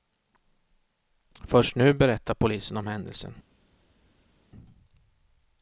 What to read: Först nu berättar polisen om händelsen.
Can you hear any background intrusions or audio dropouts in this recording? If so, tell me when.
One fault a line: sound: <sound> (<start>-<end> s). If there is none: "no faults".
no faults